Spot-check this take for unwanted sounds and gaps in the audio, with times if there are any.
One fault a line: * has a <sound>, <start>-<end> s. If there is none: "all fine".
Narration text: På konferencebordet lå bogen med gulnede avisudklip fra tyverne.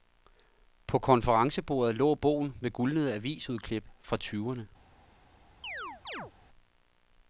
* has a chirp, 5.6-6.3 s